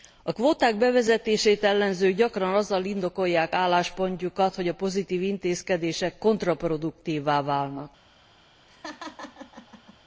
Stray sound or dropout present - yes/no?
yes